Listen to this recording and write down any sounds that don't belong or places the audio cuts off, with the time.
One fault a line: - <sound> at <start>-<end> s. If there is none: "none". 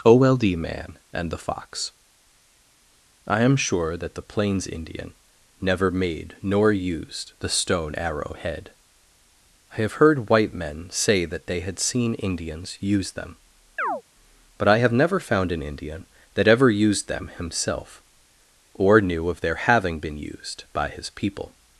- chirp at 13.8-14.0 s